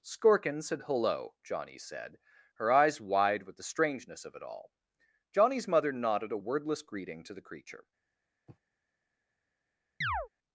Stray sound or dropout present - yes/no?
yes